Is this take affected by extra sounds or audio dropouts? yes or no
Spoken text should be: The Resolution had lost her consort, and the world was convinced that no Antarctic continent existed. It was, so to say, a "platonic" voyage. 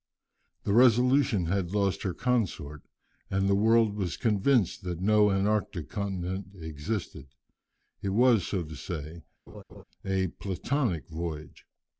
yes